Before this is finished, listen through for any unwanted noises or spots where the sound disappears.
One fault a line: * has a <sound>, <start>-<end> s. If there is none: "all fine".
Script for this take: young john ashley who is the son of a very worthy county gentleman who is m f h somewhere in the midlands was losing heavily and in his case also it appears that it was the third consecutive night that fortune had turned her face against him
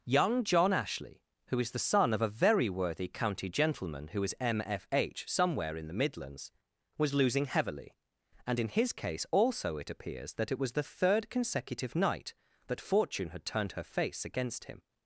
all fine